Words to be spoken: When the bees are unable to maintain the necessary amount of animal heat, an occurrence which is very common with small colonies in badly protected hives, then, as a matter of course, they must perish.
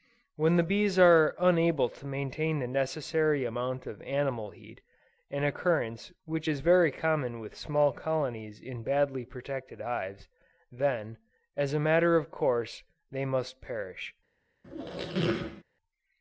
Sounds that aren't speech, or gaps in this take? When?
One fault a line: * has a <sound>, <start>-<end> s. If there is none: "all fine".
* has a squeak, 14.6-15.6 s